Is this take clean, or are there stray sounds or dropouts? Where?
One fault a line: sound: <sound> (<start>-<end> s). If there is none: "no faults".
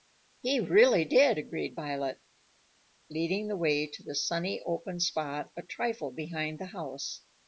no faults